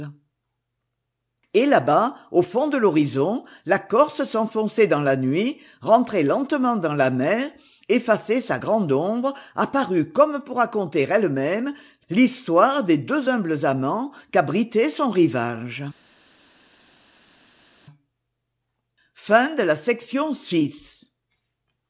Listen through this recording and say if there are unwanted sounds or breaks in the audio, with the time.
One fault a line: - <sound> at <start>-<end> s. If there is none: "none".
none